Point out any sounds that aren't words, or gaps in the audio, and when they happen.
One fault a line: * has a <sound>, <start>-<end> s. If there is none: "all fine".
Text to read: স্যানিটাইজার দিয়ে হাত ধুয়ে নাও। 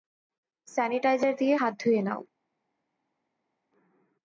all fine